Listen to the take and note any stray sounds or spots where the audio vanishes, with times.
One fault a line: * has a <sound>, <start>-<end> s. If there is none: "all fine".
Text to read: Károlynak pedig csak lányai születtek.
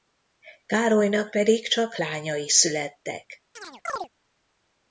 * has a chirp, 3.6-4.1 s